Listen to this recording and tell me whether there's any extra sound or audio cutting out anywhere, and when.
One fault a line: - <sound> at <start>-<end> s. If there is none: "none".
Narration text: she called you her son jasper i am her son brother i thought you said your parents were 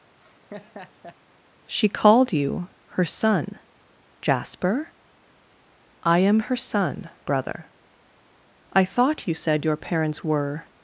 - laugh at 0.2-1.2 s